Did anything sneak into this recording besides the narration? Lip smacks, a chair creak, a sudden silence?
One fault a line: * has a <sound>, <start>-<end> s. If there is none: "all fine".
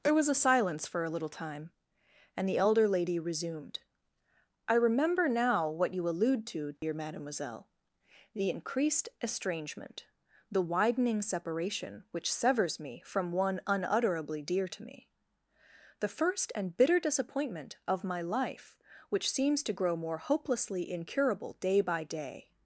* has a dropout, 6.8-6.8 s